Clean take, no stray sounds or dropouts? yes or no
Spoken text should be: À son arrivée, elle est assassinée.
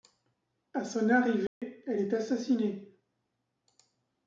no